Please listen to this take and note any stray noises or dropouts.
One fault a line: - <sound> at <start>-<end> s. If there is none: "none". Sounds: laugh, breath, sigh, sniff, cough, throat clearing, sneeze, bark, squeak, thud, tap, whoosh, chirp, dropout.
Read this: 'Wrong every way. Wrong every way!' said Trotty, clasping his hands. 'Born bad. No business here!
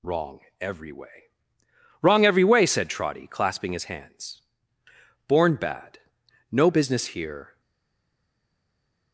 none